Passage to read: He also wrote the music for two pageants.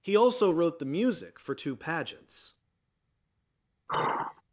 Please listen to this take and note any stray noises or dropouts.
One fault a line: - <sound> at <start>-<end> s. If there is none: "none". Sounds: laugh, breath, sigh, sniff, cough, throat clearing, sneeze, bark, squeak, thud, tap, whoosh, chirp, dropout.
- sigh at 3.9-4.4 s